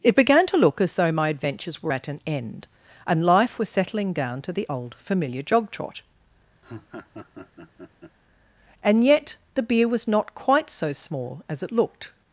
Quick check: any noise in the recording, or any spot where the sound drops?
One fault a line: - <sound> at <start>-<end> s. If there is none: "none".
- laugh at 6.6-8.2 s